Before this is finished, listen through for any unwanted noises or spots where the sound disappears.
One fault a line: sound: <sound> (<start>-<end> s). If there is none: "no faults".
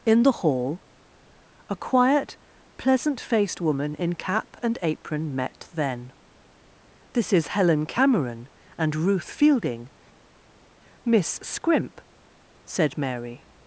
no faults